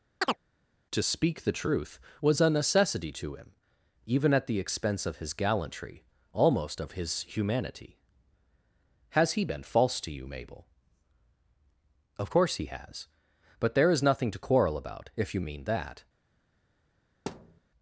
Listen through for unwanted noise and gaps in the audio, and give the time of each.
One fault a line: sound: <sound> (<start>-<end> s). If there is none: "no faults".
sound: chirp (0.2-0.4 s)
sound: thud (17.3-17.6 s)